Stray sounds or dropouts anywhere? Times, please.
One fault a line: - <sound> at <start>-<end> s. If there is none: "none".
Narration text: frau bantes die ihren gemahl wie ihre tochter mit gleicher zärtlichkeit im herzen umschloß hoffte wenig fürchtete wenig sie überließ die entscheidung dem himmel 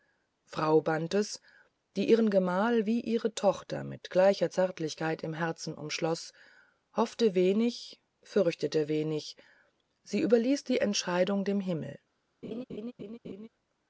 - laugh at 12.4-13.5 s